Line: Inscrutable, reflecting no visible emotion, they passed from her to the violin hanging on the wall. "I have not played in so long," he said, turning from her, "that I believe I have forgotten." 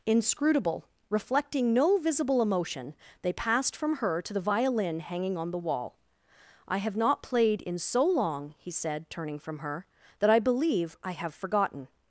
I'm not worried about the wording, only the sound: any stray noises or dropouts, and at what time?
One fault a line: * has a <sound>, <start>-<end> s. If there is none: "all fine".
all fine